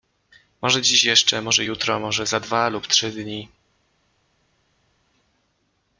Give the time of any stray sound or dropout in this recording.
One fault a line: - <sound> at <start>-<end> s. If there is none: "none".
none